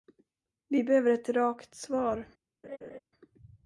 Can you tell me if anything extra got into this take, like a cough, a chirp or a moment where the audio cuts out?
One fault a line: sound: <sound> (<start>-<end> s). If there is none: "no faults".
sound: laugh (2.6-3.0 s)